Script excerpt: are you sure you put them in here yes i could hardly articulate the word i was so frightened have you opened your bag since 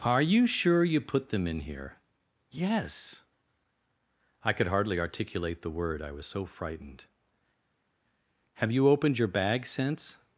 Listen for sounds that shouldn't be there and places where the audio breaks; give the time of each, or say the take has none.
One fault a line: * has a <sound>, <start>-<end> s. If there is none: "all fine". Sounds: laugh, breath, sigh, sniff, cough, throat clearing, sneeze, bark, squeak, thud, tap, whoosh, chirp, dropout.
all fine